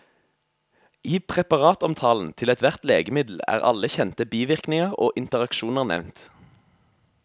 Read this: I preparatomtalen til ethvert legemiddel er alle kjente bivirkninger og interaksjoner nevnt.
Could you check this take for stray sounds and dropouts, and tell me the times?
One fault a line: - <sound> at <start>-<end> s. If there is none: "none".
none